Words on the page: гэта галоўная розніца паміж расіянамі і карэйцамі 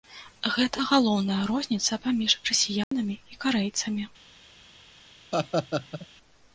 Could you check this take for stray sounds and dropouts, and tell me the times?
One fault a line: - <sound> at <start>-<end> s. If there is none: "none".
- dropout at 2.8-2.9 s
- laugh at 5.3-6.1 s